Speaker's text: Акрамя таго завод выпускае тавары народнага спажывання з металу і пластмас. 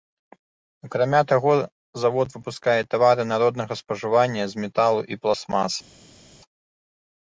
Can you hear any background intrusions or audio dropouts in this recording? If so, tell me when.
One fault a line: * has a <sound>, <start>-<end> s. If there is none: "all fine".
all fine